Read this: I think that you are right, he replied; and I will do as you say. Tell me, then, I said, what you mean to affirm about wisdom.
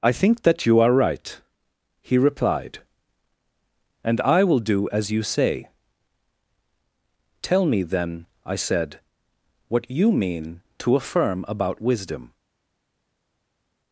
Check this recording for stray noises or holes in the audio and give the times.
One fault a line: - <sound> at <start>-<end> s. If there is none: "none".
none